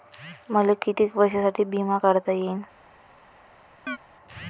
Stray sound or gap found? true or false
true